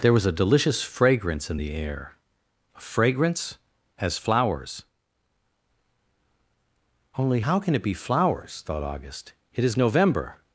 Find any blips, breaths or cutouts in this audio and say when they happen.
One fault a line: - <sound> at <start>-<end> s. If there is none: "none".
none